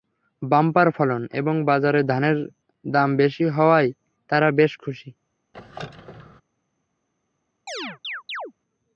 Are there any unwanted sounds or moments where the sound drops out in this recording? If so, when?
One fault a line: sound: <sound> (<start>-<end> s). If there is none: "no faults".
sound: squeak (5.5-6.4 s)
sound: chirp (7.7-8.5 s)